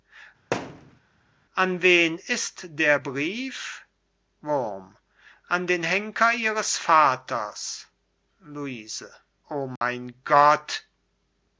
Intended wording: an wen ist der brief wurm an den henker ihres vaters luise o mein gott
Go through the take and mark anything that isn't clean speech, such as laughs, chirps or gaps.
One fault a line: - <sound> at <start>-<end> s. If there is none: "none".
- thud at 0.5-1.0 s
- dropout at 9.8-9.8 s